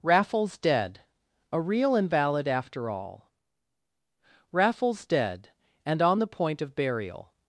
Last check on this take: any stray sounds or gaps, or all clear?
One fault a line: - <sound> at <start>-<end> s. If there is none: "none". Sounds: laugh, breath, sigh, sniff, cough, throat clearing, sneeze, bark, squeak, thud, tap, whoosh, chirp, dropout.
none